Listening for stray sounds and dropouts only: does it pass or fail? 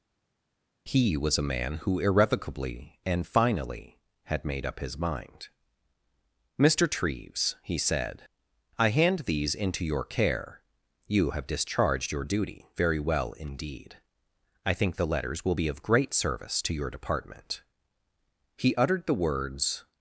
pass